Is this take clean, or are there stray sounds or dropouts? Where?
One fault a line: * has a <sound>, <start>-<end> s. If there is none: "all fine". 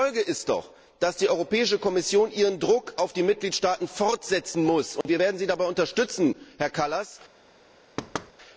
* has a dropout, 5.0-5.1 s
* has a thud, 8.0-8.3 s